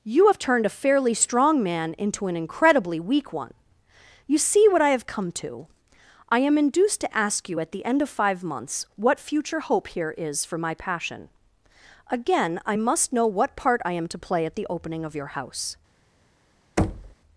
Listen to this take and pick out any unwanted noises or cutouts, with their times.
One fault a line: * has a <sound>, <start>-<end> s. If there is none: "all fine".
* has a thud, 16.8-17.2 s